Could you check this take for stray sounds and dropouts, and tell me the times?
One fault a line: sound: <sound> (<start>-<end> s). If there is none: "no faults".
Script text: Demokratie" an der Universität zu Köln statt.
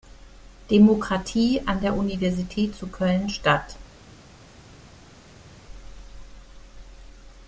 no faults